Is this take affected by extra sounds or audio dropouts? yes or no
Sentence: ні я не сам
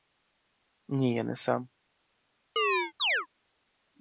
yes